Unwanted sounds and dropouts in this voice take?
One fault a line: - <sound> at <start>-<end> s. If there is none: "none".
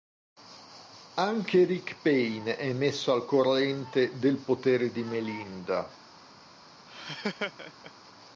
- laugh at 6.9-7.9 s